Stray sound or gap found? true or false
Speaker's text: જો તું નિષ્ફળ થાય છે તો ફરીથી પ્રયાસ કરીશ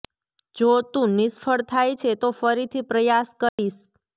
true